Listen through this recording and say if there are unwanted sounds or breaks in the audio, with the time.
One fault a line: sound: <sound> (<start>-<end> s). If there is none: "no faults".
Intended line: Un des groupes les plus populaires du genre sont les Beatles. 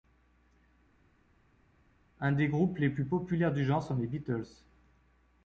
no faults